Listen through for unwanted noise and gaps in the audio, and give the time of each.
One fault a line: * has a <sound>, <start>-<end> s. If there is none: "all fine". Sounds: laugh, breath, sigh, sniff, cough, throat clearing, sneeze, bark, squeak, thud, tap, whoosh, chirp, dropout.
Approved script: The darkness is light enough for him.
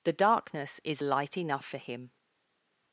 all fine